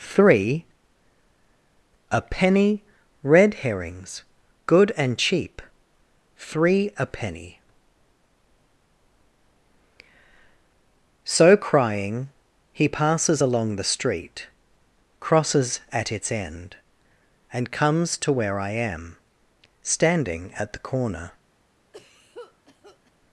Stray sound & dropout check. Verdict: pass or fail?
fail